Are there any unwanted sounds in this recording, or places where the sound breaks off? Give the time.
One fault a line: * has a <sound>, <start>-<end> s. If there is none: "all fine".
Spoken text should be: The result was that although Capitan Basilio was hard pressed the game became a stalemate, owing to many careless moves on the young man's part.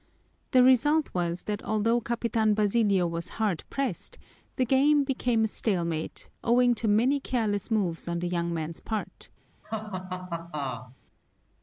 * has a laugh, 9.6-11.0 s